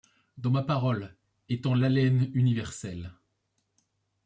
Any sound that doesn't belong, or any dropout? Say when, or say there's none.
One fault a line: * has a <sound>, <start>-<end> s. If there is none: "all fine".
all fine